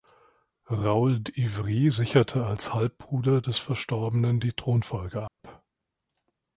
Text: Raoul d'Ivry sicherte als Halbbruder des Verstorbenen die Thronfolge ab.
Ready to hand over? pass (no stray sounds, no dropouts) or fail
fail